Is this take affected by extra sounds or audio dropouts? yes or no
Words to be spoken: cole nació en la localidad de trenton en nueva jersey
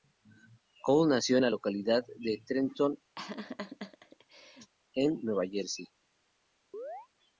yes